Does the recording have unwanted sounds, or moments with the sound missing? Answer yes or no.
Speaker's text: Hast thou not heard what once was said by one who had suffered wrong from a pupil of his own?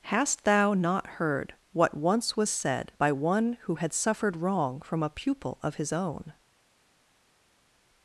no